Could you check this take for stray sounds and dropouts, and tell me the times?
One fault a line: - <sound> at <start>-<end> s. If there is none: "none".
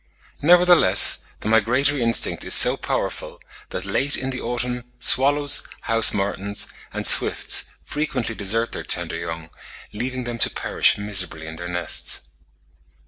none